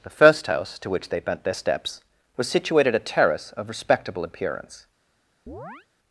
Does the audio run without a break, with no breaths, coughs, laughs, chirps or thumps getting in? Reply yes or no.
no